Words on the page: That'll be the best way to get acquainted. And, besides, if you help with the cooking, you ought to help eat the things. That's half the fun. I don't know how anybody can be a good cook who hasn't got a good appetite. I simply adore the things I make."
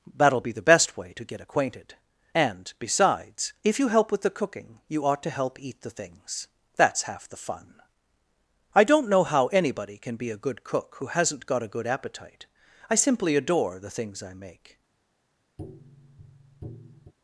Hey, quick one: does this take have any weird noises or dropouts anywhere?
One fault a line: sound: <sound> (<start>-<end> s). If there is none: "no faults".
sound: tap (15.6-17.1 s)